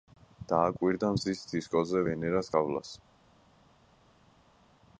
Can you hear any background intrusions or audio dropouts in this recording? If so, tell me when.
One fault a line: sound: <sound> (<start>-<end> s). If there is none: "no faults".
no faults